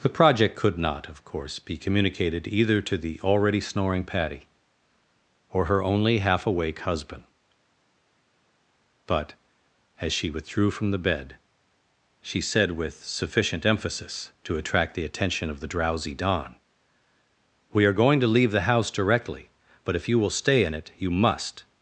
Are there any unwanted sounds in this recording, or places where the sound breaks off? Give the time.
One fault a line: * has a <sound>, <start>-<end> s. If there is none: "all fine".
all fine